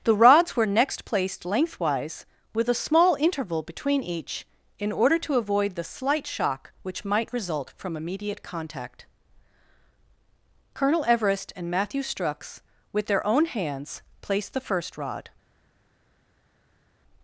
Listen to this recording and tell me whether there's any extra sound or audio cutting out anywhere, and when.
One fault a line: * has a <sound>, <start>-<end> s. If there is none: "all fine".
all fine